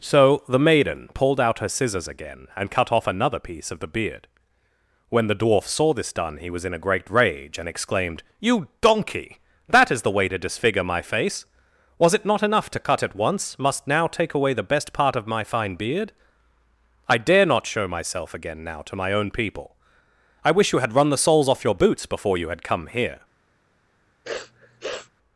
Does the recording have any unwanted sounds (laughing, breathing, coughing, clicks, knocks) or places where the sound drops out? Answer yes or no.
yes